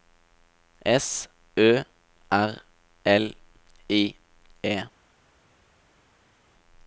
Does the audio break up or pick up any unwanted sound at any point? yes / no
no